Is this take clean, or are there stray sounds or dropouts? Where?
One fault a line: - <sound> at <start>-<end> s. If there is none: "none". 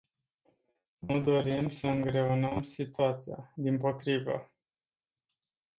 none